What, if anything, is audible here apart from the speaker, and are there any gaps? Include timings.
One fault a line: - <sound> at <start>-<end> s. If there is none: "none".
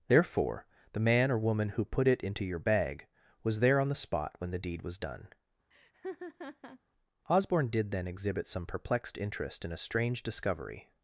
- laugh at 5.7-6.8 s